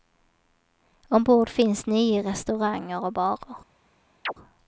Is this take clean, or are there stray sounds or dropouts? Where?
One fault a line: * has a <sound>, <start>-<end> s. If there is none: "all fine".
* has a chirp, 4.3-4.3 s